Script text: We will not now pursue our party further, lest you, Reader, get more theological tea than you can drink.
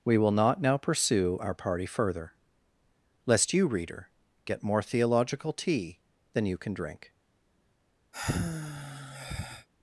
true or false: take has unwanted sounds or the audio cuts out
true